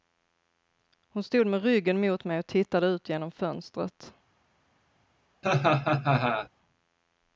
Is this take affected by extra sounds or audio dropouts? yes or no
yes